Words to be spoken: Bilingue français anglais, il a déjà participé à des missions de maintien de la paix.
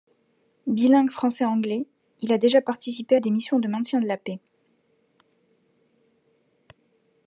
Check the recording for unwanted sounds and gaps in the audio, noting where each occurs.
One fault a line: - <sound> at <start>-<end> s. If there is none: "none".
none